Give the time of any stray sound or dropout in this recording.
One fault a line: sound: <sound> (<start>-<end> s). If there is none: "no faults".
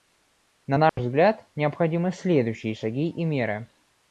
sound: dropout (0.9-1.0 s)